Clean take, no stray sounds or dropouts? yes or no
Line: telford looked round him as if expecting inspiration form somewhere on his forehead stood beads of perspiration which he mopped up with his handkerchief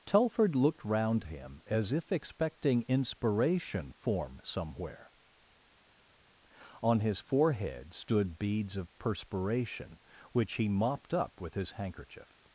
yes